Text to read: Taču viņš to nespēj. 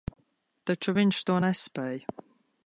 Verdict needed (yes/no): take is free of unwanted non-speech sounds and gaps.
yes